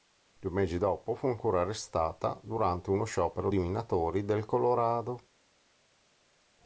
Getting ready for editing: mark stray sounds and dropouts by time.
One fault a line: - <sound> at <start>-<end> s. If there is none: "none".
none